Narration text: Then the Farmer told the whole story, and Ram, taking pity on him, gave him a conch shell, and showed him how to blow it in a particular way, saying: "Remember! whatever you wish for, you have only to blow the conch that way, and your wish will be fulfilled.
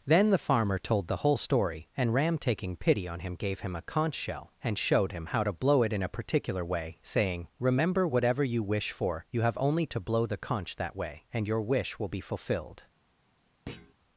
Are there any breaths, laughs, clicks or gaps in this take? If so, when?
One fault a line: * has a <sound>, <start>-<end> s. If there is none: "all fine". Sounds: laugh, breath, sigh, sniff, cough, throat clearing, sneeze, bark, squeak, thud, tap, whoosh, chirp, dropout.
* has a thud, 13.7-13.9 s